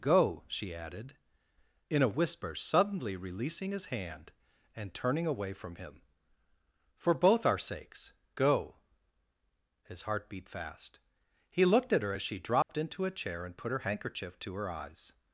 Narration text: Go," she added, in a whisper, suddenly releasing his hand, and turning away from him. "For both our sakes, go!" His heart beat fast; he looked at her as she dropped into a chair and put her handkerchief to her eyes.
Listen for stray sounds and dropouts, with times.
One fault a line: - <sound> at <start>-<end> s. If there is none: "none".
- dropout at 12.6-12.7 s